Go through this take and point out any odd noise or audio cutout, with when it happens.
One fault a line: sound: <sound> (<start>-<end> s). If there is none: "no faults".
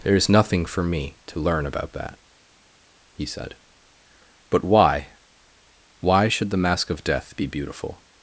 no faults